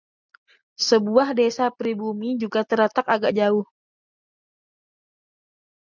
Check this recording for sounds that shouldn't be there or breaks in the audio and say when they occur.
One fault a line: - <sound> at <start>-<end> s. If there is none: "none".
none